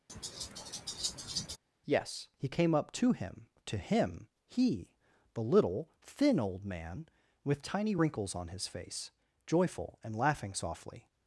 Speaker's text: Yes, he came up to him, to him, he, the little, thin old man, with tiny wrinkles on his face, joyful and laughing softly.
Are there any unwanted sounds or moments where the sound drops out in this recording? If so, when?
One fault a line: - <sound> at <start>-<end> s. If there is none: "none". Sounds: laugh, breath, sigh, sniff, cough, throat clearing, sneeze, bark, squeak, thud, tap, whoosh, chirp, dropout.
- laugh at 0.1-1.6 s